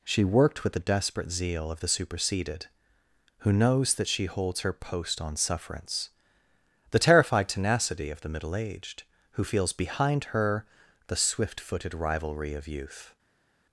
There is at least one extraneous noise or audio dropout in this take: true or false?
false